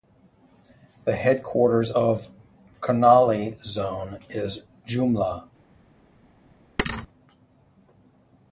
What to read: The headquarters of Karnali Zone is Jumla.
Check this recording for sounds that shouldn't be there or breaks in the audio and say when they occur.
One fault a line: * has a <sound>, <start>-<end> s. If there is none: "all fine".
* has a thud, 6.8-7.1 s